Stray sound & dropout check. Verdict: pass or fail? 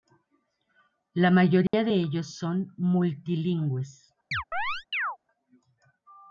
fail